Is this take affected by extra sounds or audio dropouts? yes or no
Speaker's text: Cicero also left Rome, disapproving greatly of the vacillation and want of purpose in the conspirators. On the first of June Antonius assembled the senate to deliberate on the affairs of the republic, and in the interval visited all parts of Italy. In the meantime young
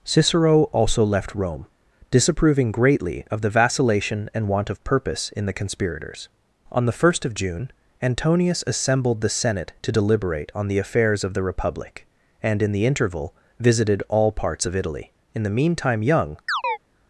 yes